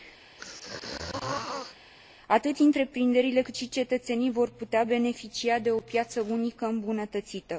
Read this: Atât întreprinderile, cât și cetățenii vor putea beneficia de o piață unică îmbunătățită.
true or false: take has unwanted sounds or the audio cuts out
true